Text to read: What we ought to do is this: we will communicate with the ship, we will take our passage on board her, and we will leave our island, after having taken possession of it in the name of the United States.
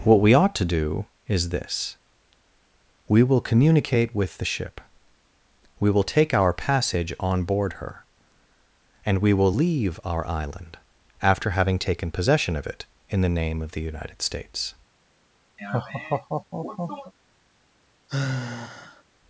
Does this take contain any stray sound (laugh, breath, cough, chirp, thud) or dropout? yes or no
yes